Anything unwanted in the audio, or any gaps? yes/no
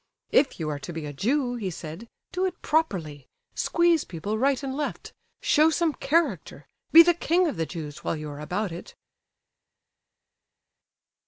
no